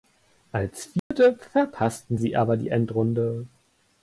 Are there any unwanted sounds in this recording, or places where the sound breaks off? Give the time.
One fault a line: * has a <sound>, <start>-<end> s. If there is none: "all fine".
* has a dropout, 1.0-1.1 s